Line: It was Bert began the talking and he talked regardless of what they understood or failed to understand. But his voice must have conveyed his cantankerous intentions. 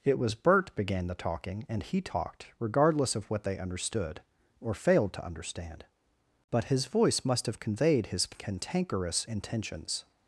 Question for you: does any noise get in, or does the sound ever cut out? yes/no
no